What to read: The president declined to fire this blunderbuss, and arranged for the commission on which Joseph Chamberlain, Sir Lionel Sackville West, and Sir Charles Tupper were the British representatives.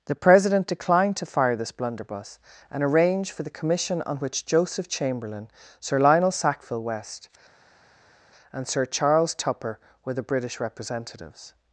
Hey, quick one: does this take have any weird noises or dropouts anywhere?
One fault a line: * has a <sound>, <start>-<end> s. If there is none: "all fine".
all fine